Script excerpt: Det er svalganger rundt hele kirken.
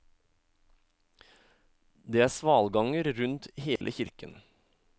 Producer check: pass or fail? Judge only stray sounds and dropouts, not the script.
fail